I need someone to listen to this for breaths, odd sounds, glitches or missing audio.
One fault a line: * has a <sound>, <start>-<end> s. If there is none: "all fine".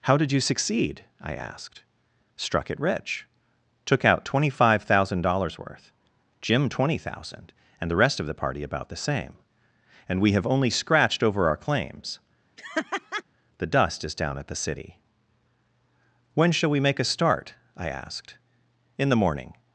* has a laugh, 12.6-13.2 s